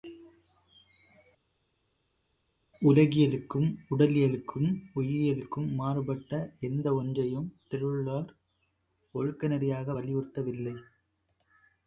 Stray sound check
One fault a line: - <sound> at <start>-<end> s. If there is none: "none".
none